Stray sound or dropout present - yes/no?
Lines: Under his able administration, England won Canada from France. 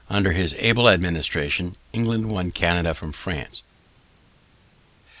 no